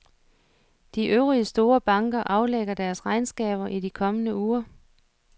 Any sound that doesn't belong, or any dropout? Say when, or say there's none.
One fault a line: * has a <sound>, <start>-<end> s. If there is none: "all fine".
all fine